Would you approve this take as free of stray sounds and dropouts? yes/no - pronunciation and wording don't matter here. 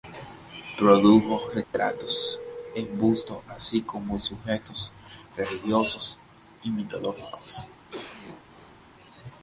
no